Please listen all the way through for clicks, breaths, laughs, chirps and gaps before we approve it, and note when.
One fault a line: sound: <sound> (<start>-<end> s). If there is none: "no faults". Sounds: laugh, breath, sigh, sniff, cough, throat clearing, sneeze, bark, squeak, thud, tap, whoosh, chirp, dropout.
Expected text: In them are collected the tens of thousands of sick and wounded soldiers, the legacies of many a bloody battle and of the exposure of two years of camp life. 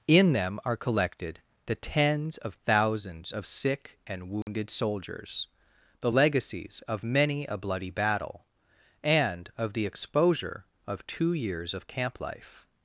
sound: dropout (4.4-4.5 s)